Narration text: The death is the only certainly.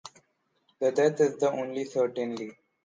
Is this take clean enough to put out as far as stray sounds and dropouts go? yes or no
yes